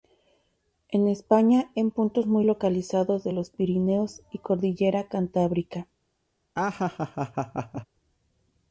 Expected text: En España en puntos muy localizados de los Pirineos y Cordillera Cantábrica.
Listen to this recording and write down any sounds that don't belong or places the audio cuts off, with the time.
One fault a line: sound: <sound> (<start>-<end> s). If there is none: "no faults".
sound: laugh (6.6-7.9 s)